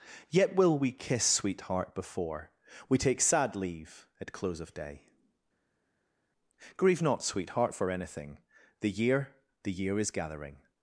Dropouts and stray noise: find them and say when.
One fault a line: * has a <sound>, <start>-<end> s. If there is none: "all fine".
all fine